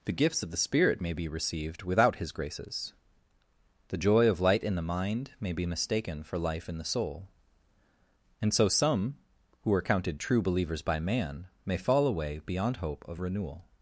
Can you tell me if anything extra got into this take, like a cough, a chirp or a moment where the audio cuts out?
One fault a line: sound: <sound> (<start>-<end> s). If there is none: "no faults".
no faults